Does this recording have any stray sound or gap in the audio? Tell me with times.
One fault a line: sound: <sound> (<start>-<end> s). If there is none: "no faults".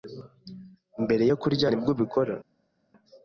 no faults